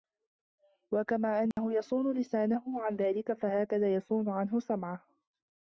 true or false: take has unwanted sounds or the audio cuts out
true